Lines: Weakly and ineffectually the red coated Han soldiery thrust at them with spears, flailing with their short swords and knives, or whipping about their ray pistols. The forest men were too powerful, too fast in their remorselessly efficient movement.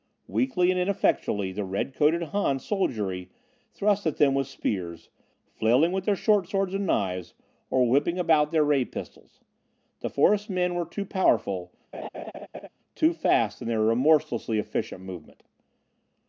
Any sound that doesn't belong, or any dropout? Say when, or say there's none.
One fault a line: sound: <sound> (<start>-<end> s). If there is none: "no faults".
sound: laugh (11.9-12.7 s)